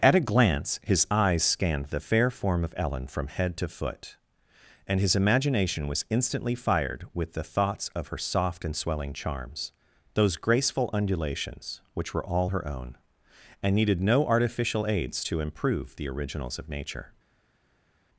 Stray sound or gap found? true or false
false